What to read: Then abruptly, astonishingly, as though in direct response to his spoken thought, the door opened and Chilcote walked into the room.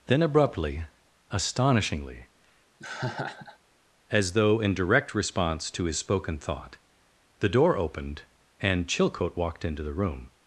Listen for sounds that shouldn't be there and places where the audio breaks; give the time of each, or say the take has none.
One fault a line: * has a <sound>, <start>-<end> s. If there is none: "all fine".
* has a laugh, 2.8-3.6 s